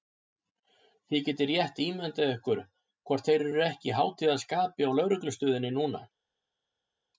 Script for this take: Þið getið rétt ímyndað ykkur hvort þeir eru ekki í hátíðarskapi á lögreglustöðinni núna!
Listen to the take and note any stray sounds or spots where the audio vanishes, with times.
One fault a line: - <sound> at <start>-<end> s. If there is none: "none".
none